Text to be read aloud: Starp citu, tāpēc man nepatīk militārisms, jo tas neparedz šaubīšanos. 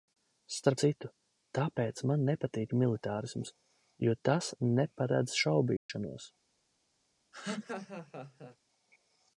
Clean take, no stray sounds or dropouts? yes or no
no